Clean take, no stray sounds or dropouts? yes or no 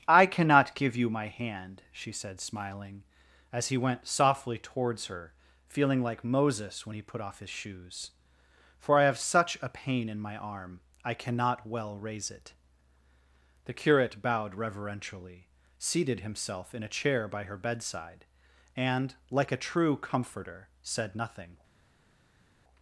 yes